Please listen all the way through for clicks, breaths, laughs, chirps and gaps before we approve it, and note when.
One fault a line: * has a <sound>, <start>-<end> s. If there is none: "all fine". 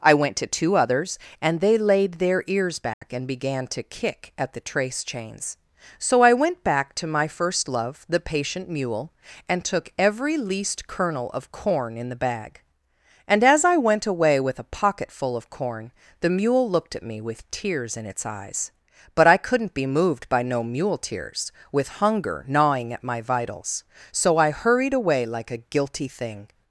* has a dropout, 2.9-3.0 s